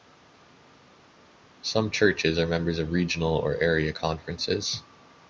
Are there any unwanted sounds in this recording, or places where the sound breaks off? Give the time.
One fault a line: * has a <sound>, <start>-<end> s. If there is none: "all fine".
all fine